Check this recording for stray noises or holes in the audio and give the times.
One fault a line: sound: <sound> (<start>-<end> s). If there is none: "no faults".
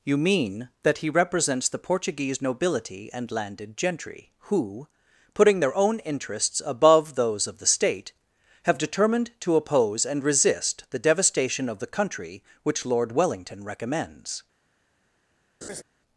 sound: laugh (15.6-15.8 s)